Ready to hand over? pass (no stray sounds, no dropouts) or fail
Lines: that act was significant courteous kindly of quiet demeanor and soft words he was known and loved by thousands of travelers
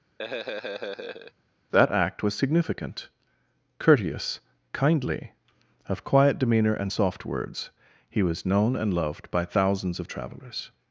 fail